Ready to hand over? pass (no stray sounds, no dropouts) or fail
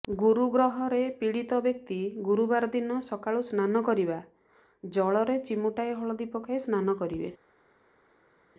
pass